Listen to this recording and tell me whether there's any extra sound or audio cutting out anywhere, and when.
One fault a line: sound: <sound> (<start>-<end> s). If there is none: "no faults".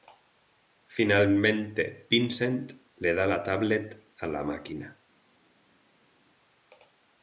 no faults